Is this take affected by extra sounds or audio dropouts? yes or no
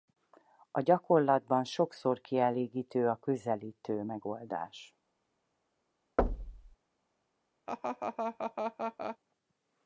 yes